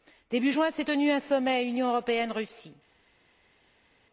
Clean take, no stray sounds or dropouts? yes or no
yes